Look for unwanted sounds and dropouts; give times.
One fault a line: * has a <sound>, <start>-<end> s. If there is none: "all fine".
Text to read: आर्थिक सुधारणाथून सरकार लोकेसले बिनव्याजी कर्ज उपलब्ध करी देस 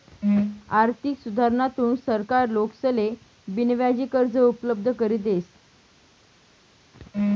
all fine